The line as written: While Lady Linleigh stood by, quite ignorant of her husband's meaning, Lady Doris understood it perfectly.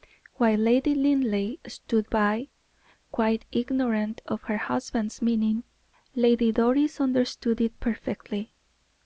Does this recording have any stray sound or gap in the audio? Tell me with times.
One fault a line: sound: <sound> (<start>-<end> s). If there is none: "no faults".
no faults